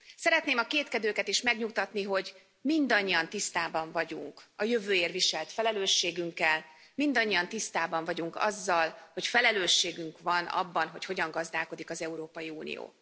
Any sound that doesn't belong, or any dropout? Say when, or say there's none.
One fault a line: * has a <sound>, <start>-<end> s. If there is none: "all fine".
all fine